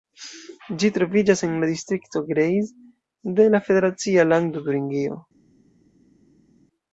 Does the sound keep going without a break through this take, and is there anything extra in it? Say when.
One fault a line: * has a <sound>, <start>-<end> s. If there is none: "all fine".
all fine